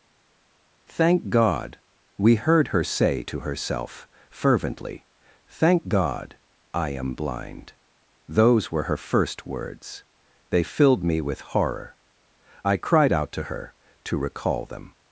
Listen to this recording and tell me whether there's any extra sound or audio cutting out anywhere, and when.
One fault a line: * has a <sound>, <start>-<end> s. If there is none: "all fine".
all fine